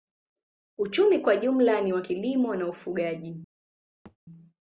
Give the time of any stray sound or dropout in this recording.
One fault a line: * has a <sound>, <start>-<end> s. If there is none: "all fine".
* has a thud, 4.0-4.2 s